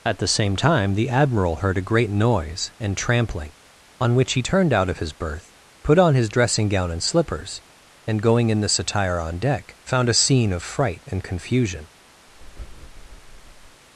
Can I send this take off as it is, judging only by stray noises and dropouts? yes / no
no